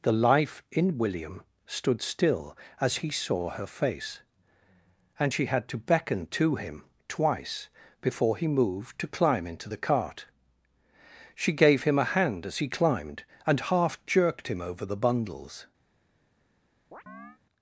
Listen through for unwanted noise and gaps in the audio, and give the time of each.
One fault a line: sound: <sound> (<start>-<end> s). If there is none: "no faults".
sound: chirp (16.9-17.4 s)